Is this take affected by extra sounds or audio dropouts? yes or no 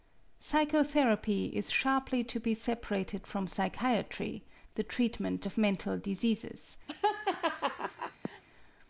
yes